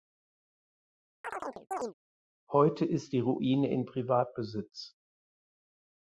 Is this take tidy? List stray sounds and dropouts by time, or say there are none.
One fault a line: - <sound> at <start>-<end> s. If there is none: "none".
- chirp at 1.2-1.9 s